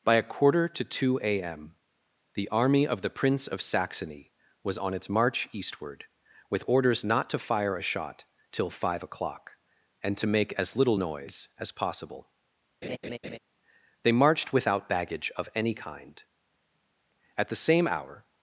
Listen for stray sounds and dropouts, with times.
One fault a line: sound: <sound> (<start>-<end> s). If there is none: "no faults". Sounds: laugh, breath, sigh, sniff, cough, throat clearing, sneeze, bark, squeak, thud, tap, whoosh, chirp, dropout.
sound: laugh (12.8-13.4 s)